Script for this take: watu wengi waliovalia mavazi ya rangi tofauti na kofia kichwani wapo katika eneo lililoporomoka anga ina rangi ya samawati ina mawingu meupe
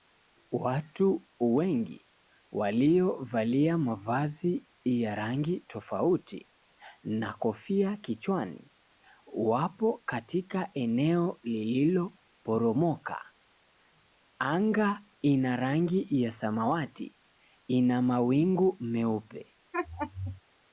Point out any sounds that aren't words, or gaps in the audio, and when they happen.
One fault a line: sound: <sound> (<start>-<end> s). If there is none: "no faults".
sound: laugh (19.7-20.4 s)